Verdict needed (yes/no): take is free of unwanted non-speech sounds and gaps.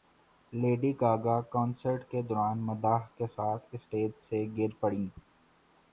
yes